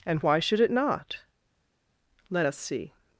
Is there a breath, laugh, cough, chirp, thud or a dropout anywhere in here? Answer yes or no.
no